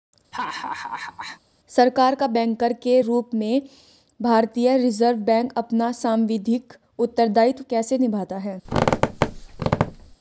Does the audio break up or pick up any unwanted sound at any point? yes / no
yes